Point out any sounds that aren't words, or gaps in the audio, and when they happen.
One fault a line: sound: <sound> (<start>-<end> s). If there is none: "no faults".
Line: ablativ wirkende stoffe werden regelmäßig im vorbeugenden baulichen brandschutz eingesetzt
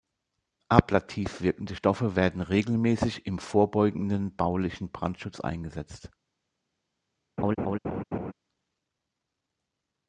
sound: laugh (7.4-8.3 s)